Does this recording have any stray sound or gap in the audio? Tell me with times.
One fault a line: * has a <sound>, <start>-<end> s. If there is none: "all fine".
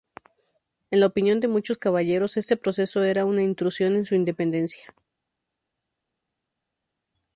all fine